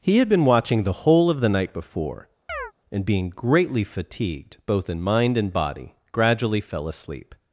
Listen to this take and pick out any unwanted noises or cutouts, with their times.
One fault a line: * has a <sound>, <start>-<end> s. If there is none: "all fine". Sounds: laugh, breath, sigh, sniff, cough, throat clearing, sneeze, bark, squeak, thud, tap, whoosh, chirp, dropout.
* has a chirp, 2.5-2.7 s